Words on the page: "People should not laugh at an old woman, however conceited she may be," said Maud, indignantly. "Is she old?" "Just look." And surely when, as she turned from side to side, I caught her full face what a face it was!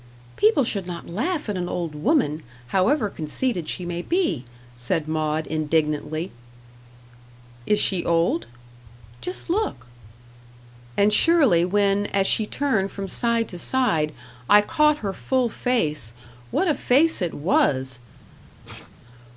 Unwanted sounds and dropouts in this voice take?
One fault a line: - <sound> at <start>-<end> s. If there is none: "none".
- sneeze at 18.6-18.9 s